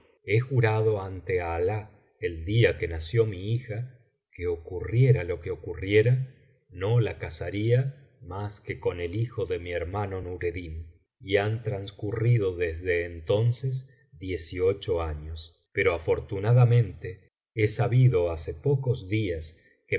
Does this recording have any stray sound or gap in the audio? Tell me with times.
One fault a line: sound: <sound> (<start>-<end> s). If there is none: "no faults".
no faults